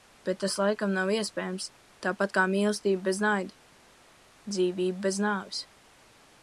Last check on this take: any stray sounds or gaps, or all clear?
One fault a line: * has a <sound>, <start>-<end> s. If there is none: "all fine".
all fine